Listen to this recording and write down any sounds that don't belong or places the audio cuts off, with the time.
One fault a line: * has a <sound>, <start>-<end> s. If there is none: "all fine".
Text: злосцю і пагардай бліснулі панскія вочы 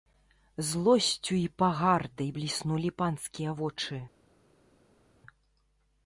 all fine